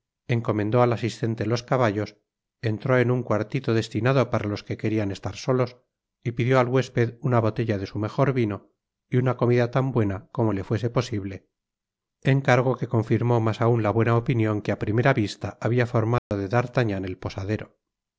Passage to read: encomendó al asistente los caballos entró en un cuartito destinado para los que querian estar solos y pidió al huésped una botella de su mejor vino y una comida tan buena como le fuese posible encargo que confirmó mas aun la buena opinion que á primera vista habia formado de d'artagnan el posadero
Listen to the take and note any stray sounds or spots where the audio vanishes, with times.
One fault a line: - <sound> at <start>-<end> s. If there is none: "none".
- dropout at 16.2-16.3 s